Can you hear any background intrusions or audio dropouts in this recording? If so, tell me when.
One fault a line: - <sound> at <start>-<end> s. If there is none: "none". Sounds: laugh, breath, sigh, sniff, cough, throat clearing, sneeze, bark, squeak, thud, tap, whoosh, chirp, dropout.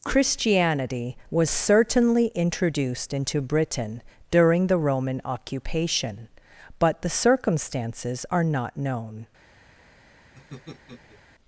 - laugh at 10.3-11.2 s